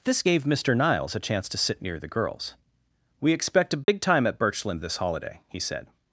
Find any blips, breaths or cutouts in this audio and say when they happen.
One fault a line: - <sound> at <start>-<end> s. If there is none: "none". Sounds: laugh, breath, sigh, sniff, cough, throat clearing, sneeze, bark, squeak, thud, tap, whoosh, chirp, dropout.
- dropout at 3.8-3.9 s